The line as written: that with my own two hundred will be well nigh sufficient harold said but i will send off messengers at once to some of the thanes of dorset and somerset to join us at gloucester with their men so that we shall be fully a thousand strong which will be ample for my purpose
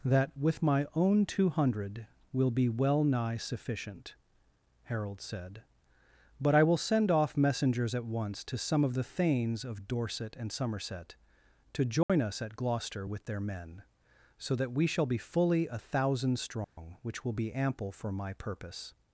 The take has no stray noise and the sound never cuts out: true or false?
false